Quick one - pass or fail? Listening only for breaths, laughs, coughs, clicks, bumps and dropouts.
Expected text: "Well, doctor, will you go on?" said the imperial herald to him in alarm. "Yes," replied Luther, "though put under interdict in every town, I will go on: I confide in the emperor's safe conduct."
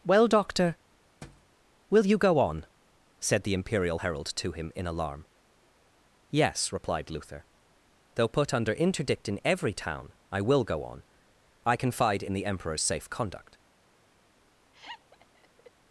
fail